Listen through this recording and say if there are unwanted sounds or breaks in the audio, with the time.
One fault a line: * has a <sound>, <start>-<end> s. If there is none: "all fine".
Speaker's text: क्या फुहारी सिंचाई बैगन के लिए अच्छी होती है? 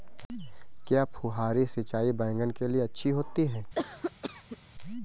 * has a cough, 3.7-4.6 s